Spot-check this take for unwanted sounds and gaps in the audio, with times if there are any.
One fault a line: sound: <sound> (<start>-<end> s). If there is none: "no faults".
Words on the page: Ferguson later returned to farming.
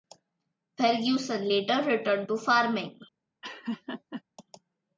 sound: laugh (3.4-4.2 s)